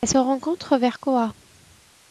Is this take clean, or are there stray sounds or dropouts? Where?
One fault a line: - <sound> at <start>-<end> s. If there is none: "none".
none